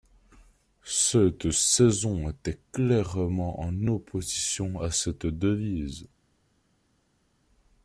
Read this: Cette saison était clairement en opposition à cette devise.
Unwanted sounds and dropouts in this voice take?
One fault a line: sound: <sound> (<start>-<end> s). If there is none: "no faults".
no faults